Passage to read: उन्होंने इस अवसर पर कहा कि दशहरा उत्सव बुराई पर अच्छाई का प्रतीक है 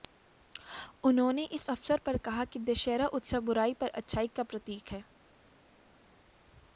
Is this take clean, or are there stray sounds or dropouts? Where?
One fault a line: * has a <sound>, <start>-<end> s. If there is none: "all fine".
all fine